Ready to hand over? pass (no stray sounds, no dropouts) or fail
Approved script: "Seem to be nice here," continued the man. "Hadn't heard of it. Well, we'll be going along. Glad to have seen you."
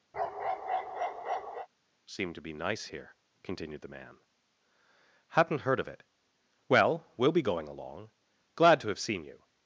fail